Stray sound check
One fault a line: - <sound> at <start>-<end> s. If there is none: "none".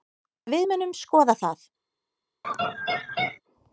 - laugh at 2.4-3.4 s